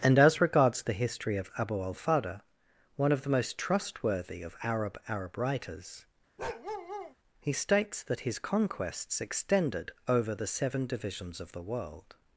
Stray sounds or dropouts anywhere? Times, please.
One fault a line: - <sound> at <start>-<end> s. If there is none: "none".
- bark at 6.4-7.1 s